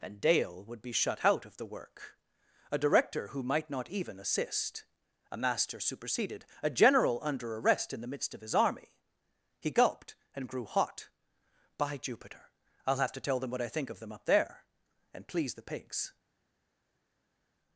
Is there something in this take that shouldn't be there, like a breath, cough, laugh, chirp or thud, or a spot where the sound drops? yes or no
no